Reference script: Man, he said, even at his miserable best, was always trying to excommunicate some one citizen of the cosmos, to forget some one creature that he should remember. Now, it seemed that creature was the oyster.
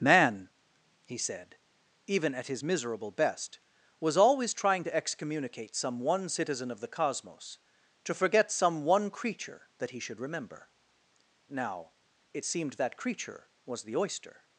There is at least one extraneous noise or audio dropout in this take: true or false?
false